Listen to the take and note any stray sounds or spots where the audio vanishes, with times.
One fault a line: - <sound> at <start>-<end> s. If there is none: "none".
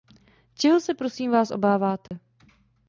- dropout at 2.1-2.1 s